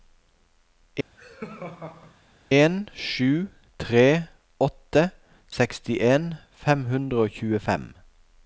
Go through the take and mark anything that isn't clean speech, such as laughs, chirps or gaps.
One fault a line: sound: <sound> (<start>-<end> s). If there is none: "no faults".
sound: laugh (1.2-2.2 s)